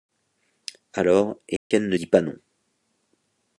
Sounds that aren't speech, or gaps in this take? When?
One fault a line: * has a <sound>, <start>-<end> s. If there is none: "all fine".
* has a dropout, 1.6-1.7 s